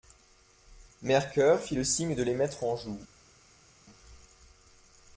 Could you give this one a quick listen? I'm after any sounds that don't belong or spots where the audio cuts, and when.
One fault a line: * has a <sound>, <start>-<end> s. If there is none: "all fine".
all fine